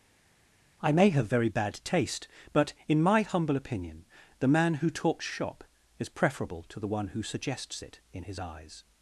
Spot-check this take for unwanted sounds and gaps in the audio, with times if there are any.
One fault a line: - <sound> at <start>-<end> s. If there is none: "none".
none